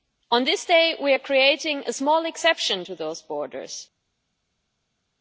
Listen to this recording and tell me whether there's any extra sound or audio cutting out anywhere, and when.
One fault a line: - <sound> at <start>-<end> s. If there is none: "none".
none